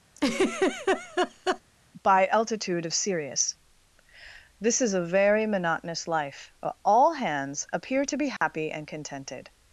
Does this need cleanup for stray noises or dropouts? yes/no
yes